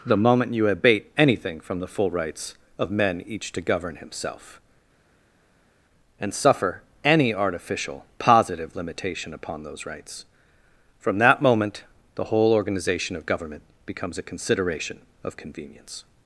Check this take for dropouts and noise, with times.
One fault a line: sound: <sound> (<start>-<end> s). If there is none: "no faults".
no faults